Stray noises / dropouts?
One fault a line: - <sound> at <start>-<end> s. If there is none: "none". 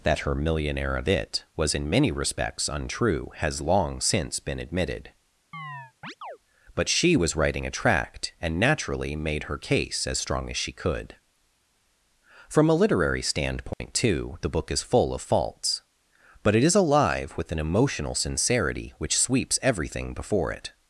- chirp at 5.5-6.4 s
- dropout at 13.7-13.8 s